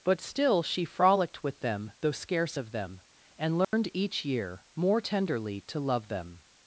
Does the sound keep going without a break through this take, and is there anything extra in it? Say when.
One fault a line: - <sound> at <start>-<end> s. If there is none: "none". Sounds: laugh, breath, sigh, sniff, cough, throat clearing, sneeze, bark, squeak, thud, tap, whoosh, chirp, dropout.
- dropout at 3.6-3.7 s